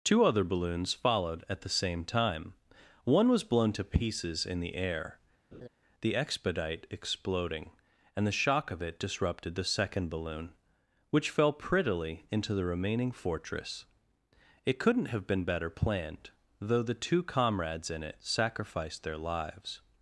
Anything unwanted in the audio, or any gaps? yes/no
yes